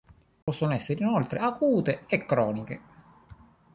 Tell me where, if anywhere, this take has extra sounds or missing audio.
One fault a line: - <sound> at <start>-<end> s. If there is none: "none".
- dropout at 0.4-0.5 s